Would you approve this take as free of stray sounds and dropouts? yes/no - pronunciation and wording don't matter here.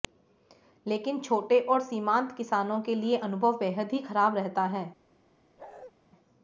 no